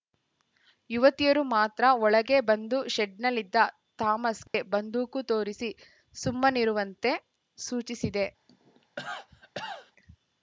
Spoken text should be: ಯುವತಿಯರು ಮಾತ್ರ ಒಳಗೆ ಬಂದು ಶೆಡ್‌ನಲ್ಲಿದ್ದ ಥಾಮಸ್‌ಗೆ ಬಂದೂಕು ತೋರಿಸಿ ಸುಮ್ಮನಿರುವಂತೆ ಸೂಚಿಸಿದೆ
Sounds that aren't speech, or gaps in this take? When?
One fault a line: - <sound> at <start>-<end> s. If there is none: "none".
- dropout at 4.5-4.5 s
- cough at 8.5-9.9 s